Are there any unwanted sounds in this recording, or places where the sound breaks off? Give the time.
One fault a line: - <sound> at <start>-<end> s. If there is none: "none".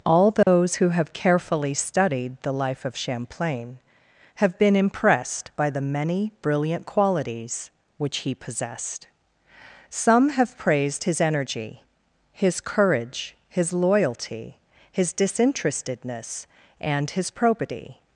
- dropout at 0.4-0.5 s